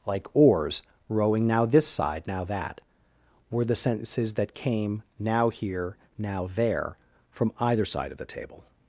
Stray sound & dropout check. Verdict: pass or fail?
pass